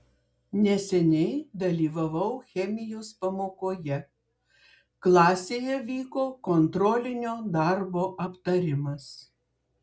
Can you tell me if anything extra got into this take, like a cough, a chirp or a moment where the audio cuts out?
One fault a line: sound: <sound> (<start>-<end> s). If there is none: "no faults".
no faults